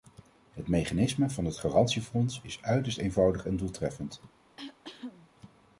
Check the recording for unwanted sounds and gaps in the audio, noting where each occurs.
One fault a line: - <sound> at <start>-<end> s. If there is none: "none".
- cough at 4.6-5.3 s